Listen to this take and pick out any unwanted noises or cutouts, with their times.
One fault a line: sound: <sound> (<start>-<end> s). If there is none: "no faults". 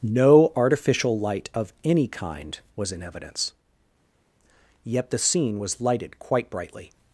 no faults